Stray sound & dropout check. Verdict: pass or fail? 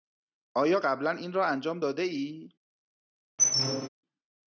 fail